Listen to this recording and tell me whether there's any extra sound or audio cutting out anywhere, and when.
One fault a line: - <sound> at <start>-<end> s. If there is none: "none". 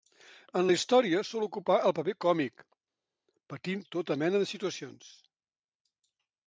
none